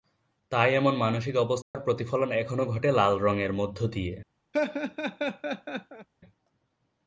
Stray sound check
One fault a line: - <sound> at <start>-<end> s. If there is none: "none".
- dropout at 1.6-1.7 s
- laugh at 4.5-6.1 s